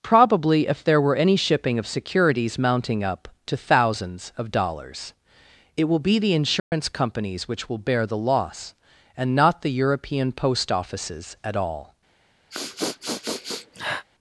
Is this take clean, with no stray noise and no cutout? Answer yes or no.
no